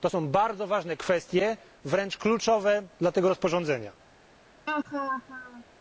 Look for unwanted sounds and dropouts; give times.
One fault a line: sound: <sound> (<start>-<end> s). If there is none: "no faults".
sound: laugh (4.7-5.6 s)